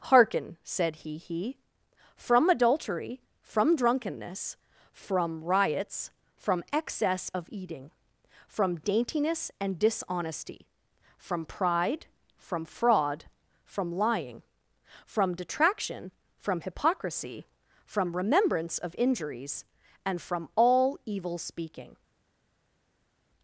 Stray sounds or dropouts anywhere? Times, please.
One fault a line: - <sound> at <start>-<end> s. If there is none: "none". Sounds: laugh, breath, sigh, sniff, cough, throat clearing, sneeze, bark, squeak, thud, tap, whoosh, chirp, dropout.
none